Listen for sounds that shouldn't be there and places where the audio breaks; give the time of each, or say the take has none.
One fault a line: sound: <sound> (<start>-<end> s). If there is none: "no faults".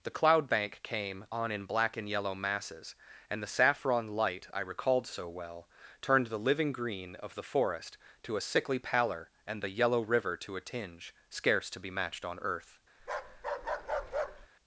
sound: bark (13.0-14.5 s)